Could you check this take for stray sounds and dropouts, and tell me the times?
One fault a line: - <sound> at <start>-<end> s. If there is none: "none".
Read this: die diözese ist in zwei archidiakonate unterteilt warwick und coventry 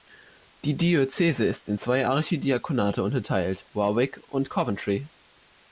none